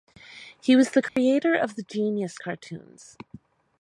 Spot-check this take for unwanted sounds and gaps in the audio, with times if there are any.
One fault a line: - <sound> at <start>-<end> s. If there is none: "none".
- dropout at 1.1-1.2 s